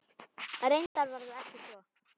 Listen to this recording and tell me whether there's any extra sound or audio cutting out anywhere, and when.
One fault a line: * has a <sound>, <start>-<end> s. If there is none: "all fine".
* has a dropout, 0.9-1.0 s